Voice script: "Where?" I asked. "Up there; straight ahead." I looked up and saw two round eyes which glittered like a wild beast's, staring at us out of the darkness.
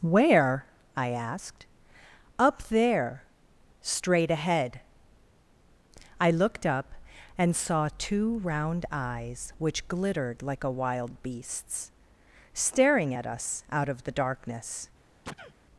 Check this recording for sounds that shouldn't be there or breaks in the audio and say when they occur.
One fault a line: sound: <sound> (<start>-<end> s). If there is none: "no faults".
sound: sneeze (15.2-15.5 s)